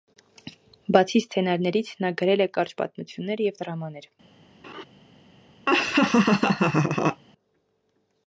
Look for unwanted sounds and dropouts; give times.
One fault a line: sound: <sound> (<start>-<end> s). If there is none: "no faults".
sound: laugh (4.6-4.8 s)
sound: laugh (5.7-7.2 s)